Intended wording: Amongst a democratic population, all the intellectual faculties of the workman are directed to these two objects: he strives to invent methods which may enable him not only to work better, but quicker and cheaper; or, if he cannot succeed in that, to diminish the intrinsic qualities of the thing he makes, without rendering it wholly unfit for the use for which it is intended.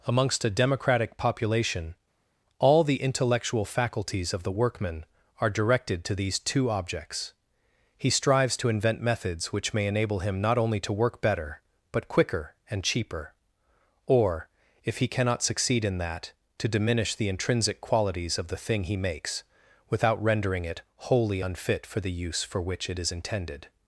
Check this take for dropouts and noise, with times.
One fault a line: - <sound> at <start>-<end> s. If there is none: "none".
none